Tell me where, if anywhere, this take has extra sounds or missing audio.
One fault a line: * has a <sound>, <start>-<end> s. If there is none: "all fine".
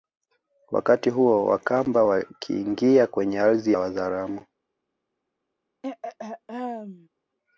* has a throat clearing, 5.8-7.1 s